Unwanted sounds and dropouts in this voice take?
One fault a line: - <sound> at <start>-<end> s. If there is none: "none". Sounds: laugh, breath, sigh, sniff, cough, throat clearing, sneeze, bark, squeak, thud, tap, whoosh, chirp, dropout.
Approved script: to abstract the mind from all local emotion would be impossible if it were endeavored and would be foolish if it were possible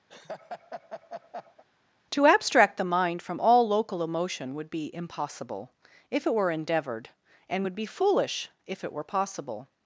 - laugh at 0.1-1.6 s